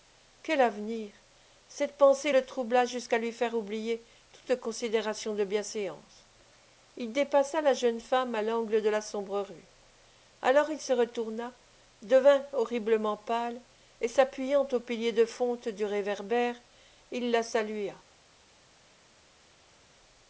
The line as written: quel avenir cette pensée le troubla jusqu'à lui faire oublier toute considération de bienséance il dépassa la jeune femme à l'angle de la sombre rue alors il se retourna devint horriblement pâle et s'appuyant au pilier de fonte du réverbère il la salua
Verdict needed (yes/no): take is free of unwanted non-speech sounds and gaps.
yes